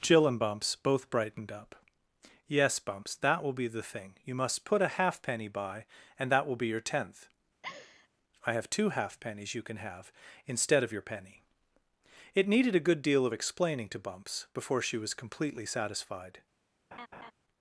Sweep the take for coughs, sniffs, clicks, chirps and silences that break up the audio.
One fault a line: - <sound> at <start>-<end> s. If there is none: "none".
- laugh at 7.6-8.1 s
- laugh at 16.9-17.3 s